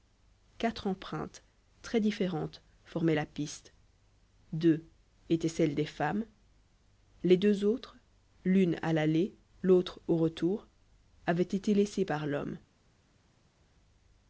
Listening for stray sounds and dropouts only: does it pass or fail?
pass